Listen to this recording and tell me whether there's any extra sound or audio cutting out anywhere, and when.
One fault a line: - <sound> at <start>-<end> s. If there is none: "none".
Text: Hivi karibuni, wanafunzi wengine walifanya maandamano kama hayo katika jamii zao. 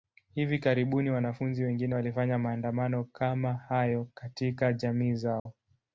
- dropout at 5.4-5.5 s